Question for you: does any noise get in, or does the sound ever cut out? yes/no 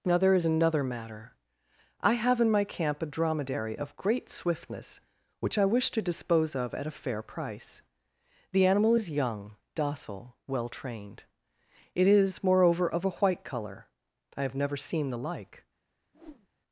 yes